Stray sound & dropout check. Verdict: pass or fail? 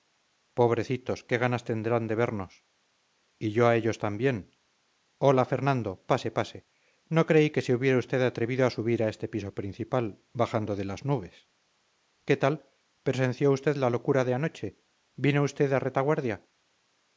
pass